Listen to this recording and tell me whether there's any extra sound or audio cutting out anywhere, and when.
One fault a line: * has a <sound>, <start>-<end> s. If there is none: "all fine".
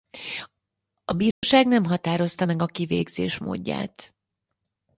* has a dropout, 1.3-1.4 s